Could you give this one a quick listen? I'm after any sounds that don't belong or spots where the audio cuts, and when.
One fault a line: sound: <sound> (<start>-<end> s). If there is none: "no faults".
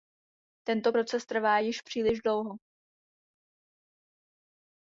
no faults